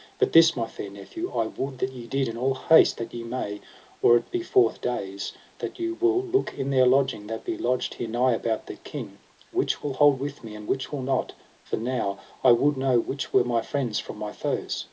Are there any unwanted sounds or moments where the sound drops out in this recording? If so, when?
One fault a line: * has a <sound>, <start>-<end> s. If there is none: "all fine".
all fine